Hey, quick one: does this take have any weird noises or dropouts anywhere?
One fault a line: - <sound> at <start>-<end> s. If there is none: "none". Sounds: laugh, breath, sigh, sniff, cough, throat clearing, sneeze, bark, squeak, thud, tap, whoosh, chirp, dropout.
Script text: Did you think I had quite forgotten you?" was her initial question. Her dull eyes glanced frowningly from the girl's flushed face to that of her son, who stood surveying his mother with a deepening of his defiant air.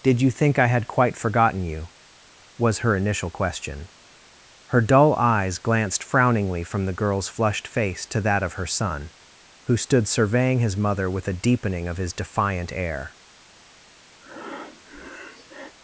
- breath at 14.2-15.7 s